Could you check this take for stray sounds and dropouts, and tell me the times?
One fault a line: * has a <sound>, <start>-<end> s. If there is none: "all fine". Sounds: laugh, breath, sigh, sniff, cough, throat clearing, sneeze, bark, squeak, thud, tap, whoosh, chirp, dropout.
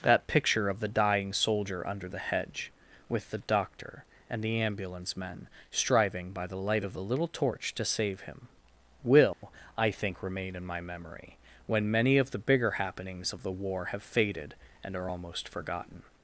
* has a dropout, 9.3-9.4 s